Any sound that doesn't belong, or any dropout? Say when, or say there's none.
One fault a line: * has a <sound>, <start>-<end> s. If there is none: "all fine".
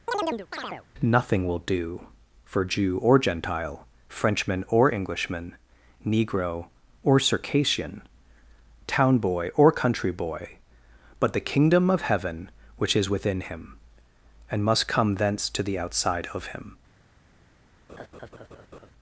* has a chirp, 0.1-0.9 s
* has a laugh, 17.9-18.9 s